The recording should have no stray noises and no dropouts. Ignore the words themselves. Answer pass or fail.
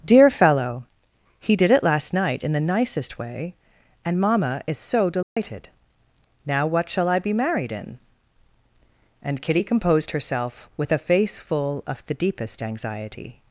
fail